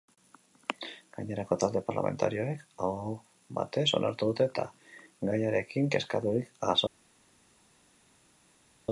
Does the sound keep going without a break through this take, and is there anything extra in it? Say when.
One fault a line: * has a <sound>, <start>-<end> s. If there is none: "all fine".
all fine